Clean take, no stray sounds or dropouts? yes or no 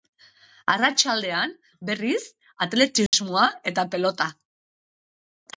no